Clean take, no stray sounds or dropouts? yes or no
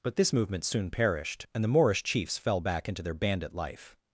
yes